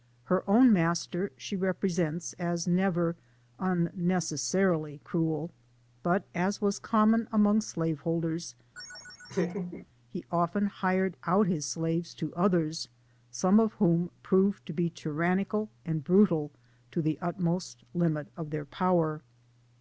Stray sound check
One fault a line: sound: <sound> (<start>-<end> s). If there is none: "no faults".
sound: laugh (8.7-9.9 s)